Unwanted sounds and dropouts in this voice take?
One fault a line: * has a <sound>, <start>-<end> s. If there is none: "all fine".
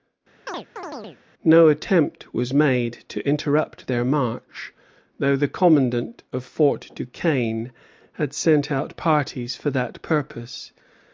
* has a chirp, 0.5-1.2 s